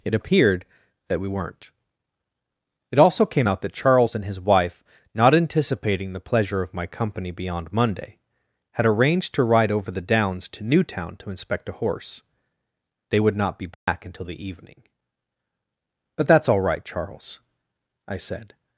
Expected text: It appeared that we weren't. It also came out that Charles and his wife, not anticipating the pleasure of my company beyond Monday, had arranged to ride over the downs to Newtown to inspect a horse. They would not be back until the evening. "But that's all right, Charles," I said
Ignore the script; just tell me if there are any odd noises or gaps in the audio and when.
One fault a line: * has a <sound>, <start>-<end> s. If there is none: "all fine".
* has a dropout, 13.7-13.9 s